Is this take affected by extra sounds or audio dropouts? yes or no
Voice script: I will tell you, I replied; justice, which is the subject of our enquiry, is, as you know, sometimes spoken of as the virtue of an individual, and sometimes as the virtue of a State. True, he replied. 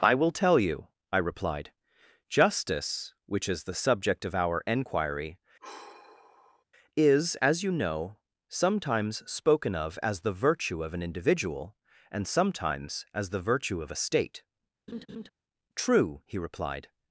yes